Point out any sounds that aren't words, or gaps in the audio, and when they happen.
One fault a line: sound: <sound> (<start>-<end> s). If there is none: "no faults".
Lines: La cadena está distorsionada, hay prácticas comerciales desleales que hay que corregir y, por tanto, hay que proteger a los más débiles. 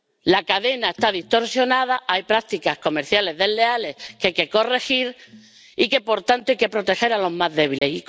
sound: dropout (7.8-7.8 s)